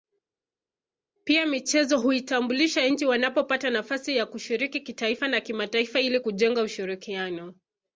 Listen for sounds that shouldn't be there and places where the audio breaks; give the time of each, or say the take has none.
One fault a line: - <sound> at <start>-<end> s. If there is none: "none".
none